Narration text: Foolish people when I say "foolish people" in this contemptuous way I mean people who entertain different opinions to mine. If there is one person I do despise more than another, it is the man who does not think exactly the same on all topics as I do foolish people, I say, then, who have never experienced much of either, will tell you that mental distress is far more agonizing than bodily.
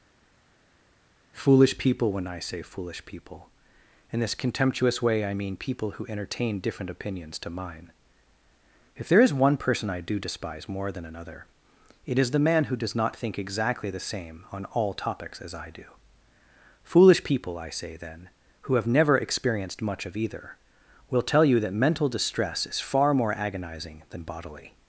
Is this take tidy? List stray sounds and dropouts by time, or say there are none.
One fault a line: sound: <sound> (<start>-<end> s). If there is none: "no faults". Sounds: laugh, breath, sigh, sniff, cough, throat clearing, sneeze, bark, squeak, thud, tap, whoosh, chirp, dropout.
no faults